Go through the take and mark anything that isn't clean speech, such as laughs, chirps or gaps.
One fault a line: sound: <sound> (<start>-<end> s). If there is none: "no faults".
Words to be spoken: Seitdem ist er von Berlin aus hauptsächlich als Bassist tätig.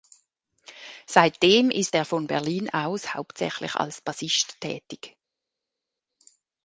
no faults